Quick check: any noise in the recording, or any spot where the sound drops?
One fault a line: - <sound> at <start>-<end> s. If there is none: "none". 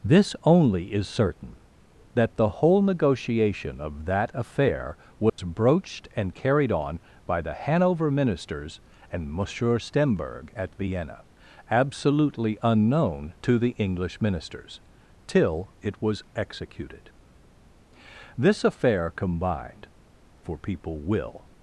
- dropout at 5.3-5.4 s